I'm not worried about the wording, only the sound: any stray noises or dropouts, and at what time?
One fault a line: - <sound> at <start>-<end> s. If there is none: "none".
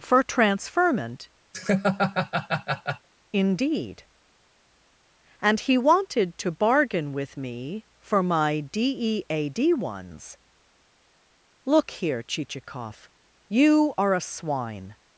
- laugh at 1.5-3.1 s